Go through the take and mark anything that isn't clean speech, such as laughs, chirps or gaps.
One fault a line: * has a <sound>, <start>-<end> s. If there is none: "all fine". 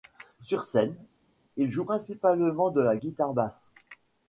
all fine